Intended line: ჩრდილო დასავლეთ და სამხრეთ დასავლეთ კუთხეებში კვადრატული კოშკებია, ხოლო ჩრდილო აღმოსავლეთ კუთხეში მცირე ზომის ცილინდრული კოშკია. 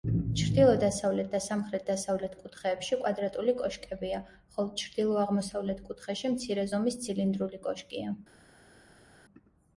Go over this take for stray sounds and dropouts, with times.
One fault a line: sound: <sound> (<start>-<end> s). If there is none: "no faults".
no faults